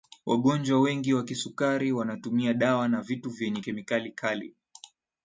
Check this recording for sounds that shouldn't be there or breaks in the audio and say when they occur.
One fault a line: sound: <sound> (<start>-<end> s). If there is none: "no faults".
no faults